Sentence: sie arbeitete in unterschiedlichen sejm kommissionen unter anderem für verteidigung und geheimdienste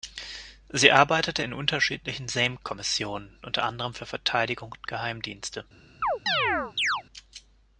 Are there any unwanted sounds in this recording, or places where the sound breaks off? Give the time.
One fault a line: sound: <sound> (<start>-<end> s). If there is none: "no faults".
sound: chirp (6.0-7.0 s)